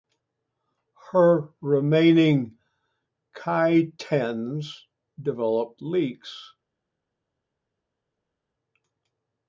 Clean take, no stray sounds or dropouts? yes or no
yes